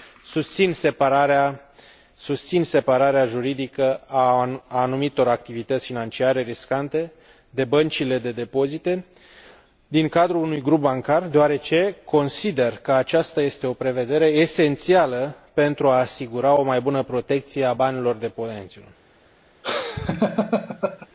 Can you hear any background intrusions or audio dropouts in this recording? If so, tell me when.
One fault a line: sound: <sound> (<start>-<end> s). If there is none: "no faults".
sound: laugh (19.6-21.1 s)